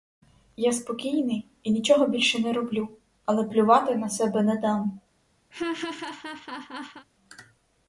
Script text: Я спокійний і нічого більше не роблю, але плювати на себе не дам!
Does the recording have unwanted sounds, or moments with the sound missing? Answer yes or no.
yes